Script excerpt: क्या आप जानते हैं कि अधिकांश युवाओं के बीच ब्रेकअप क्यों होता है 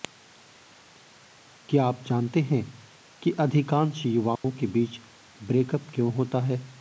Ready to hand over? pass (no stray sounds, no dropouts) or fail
fail